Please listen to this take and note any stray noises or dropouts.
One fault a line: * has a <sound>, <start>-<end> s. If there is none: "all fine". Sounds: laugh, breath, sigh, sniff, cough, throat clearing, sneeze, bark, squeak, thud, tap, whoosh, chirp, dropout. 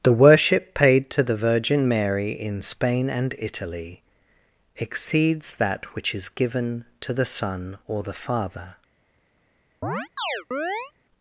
* has a chirp, 9.8-10.9 s